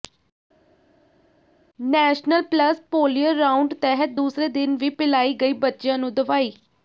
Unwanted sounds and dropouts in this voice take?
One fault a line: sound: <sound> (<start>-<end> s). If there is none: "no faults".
no faults